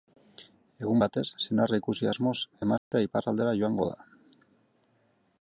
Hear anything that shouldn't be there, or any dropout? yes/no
yes